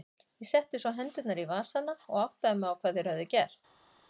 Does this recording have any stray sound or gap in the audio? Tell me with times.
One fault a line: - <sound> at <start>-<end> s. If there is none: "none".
none